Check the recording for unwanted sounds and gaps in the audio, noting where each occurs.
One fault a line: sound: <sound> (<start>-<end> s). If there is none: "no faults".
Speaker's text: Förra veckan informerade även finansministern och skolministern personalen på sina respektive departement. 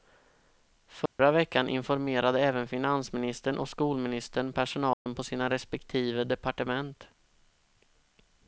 sound: dropout (1.1-1.2 s)
sound: dropout (4.9-5.1 s)